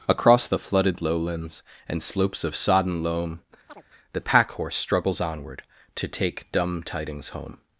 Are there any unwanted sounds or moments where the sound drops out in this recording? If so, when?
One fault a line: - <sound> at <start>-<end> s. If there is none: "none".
- chirp at 3.7-3.8 s